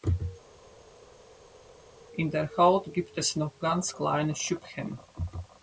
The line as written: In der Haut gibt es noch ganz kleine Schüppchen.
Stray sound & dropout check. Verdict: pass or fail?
pass